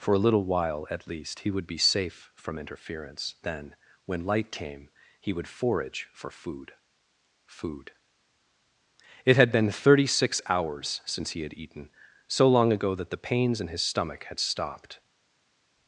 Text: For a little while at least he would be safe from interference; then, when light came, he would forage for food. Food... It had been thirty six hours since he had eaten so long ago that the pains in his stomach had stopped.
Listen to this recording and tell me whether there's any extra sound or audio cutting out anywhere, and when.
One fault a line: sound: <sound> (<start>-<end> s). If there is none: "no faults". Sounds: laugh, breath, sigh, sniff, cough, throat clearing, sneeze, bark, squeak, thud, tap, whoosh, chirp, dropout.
no faults